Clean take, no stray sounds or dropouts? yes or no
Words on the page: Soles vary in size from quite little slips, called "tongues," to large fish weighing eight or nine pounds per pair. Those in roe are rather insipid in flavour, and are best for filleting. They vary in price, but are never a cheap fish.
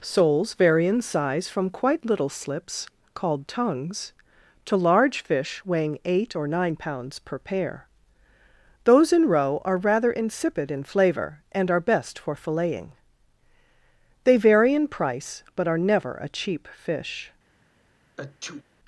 no